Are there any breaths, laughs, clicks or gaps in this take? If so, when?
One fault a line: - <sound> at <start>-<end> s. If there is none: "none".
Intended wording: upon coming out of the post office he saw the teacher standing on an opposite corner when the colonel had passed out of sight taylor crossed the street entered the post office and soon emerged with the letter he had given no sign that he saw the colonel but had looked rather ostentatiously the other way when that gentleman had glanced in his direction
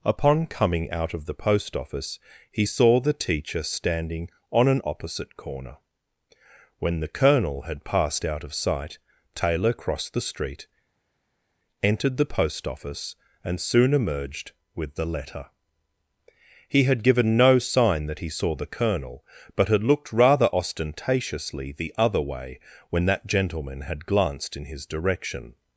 none